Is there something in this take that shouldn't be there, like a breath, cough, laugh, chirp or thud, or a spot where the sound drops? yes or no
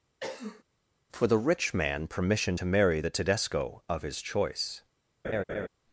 yes